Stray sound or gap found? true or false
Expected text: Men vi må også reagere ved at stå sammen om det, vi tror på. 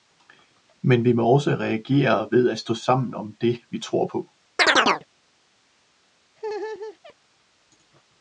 true